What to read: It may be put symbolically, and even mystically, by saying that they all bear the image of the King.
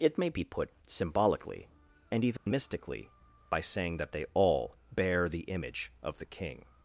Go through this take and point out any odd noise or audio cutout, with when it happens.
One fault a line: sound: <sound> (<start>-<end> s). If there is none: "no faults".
sound: dropout (2.4-2.5 s)